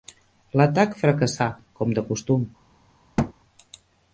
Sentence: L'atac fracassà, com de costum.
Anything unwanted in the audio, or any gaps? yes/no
yes